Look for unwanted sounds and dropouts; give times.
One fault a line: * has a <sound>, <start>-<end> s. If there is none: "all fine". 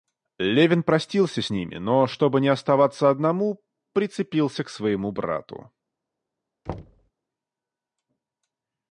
* has a thud, 6.7-7.1 s